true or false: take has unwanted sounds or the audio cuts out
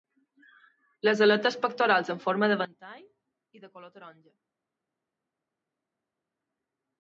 false